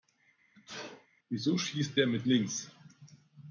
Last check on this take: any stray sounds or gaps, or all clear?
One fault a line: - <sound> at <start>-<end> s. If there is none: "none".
- sneeze at 0.5-1.1 s